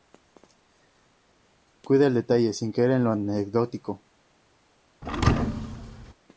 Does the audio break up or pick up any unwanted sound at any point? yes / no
yes